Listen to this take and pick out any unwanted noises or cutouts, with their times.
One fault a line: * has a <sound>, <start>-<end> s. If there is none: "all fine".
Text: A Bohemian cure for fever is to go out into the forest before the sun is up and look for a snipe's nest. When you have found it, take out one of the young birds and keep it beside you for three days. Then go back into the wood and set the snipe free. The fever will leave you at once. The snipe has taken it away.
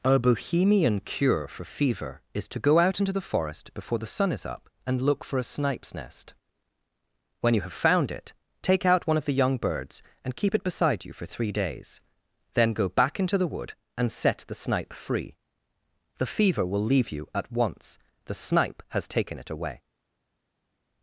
all fine